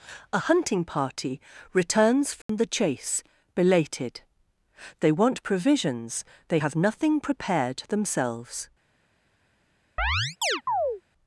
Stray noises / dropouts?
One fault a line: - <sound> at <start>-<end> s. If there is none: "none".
- dropout at 2.4-2.5 s
- chirp at 10.0-11.0 s